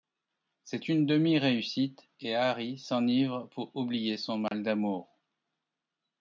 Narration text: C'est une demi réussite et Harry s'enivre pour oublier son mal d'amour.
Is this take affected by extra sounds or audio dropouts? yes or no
yes